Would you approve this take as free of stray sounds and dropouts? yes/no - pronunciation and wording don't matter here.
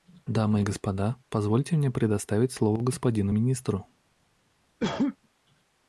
no